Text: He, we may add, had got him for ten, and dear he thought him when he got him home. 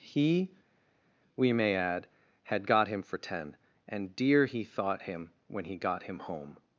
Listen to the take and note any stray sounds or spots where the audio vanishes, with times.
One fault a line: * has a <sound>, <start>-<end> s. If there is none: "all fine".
all fine